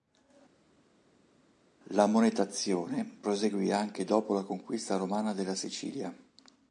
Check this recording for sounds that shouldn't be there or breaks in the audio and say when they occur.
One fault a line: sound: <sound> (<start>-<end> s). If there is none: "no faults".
no faults